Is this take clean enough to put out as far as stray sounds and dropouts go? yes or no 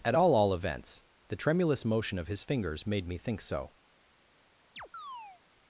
no